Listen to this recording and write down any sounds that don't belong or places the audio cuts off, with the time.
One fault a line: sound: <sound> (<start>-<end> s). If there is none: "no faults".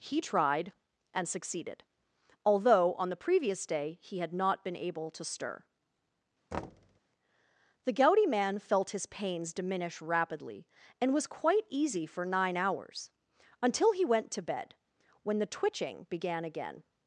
sound: thud (6.5-7.0 s)